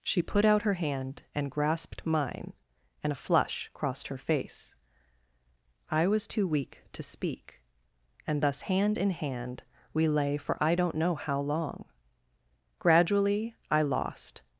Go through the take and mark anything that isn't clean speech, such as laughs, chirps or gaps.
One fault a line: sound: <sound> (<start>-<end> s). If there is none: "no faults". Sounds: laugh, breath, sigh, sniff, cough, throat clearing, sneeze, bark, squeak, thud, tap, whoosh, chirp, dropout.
no faults